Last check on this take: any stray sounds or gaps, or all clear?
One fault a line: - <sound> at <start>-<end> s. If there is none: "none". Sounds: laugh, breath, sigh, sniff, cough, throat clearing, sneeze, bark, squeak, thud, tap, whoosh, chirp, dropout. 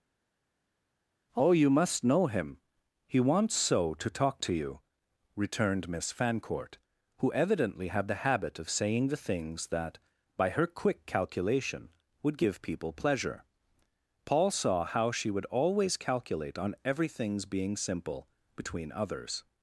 none